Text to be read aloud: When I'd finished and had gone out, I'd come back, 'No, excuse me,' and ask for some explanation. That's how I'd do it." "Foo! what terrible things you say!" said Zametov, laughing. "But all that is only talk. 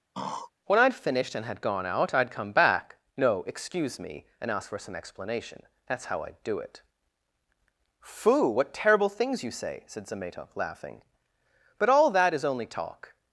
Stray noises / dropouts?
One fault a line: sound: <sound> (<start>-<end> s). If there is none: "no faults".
sound: throat clearing (0.1-0.5 s)